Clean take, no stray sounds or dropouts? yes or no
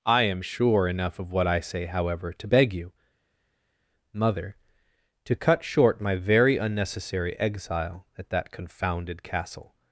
yes